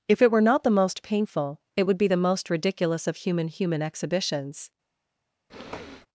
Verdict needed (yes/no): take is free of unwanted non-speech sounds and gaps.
no